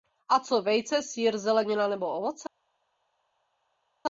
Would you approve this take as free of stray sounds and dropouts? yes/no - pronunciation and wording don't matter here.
yes